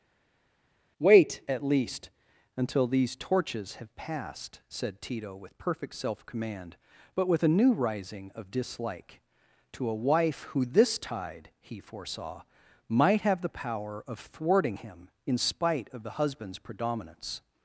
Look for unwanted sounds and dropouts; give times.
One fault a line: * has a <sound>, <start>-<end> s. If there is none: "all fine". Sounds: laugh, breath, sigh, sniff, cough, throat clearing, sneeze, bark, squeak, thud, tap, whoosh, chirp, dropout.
all fine